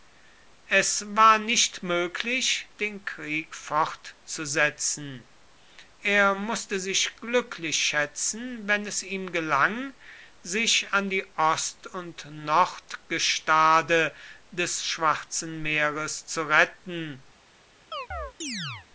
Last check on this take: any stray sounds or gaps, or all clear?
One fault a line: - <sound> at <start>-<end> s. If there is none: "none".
- chirp at 17.9-18.9 s